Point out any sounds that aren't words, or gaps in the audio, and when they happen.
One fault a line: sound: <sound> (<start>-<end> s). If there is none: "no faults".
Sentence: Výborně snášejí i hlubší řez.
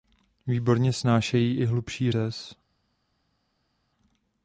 no faults